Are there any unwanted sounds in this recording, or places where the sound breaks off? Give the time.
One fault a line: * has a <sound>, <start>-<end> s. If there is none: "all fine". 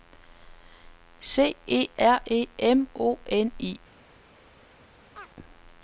* has a chirp, 5.2-5.3 s